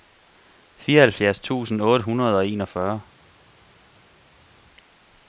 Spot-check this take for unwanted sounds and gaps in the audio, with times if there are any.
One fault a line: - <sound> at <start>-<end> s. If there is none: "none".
none